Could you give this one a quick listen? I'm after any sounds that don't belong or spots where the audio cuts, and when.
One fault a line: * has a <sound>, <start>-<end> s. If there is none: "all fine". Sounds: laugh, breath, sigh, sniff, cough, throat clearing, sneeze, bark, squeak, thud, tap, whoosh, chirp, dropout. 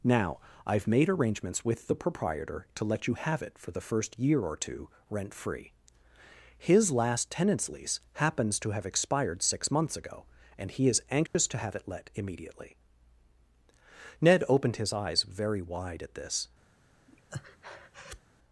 * has a dropout, 11.3-11.3 s
* has a breath, 17.1-18.2 s